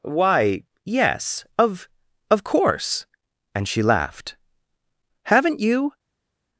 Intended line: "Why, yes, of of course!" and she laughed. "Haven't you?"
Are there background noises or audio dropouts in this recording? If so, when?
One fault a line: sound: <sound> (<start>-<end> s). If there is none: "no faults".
no faults